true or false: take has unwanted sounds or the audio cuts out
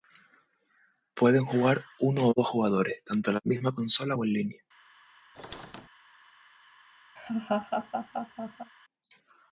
true